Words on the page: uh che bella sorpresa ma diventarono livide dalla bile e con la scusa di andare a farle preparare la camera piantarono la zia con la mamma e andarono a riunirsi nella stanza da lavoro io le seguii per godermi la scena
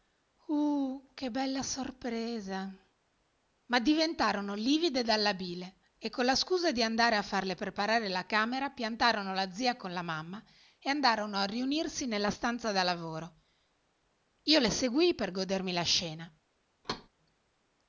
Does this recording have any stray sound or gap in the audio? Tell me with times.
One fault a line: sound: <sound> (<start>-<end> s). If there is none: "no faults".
sound: thud (16.8-17.1 s)